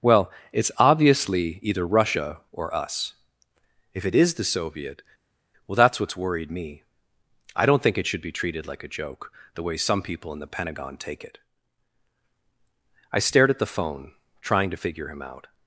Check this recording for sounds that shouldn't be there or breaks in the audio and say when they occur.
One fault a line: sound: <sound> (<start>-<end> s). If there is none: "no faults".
no faults